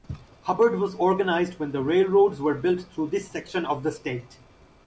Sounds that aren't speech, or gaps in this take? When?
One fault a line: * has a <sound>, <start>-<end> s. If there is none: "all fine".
all fine